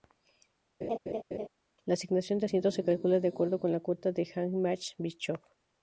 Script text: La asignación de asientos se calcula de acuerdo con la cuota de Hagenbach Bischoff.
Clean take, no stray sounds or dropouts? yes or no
no